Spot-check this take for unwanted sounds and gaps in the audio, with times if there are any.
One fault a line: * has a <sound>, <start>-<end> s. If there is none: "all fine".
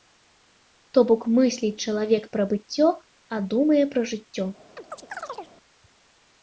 * has a chirp, 4.8-5.5 s